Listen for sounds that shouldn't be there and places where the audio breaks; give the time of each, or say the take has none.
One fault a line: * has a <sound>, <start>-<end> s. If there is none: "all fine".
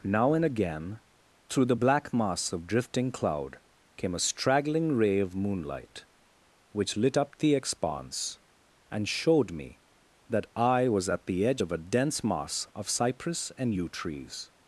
all fine